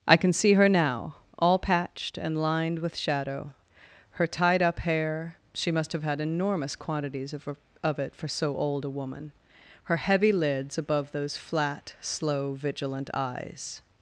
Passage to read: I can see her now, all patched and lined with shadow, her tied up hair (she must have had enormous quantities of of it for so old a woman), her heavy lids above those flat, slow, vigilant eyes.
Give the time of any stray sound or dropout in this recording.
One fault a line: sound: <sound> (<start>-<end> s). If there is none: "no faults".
no faults